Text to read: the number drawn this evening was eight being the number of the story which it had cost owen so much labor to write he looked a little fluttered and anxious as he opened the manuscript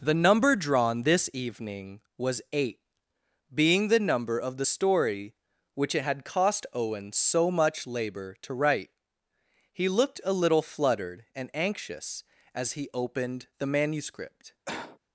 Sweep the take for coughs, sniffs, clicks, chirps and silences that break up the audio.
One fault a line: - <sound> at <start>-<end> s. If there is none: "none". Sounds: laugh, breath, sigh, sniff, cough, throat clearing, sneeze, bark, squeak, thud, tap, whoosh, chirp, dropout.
- cough at 14.7-15.0 s